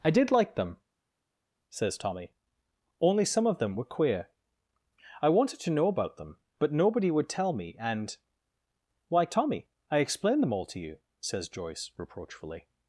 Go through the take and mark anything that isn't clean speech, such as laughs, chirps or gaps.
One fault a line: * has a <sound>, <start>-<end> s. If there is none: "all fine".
all fine